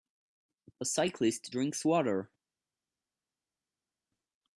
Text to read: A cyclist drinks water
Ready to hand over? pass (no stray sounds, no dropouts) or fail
pass